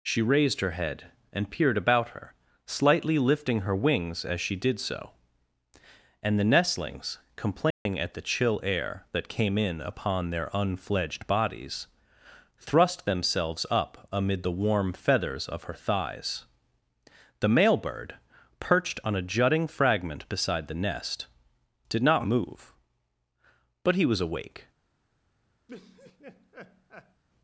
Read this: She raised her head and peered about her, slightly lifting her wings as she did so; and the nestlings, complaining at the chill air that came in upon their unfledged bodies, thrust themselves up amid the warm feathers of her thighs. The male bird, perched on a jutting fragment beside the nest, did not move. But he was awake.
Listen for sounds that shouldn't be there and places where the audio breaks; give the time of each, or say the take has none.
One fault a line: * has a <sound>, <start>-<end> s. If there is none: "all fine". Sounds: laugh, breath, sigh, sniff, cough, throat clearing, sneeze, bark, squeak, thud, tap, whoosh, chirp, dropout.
* has a dropout, 7.7-7.9 s
* has a laugh, 25.7-27.2 s